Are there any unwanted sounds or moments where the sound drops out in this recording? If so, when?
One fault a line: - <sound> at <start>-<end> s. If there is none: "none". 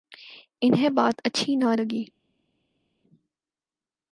none